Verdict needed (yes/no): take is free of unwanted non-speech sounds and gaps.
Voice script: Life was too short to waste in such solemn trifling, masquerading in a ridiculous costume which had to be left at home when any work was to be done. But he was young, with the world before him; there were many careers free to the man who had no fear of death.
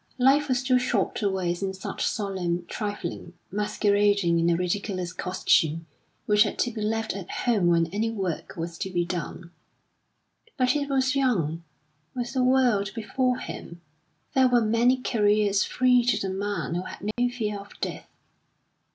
no